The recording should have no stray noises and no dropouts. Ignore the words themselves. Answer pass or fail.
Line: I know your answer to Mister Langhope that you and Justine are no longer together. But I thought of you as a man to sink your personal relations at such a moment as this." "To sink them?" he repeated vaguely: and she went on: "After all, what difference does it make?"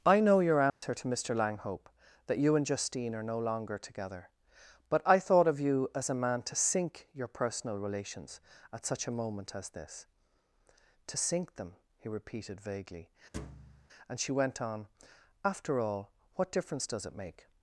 fail